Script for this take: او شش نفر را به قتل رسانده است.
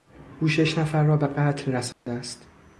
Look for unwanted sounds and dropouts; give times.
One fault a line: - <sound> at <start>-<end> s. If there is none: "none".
- dropout at 1.9-2.1 s